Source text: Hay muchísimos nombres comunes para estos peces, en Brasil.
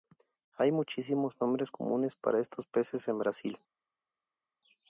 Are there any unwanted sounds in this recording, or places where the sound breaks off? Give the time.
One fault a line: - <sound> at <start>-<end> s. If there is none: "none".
none